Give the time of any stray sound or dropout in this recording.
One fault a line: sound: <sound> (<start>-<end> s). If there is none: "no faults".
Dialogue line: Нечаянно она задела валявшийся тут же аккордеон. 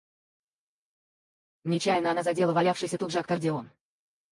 no faults